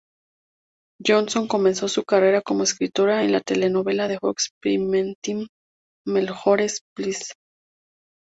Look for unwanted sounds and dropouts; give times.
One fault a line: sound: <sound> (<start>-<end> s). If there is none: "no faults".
no faults